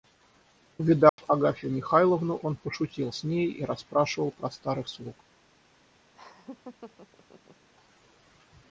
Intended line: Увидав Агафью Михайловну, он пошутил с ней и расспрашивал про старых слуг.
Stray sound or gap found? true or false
true